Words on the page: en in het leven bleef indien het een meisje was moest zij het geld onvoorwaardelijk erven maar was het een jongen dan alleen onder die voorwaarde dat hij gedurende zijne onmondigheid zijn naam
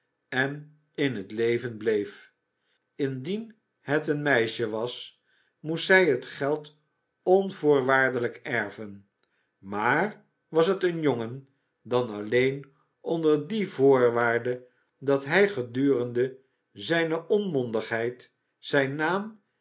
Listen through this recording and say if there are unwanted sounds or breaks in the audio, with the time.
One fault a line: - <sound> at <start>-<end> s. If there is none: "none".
none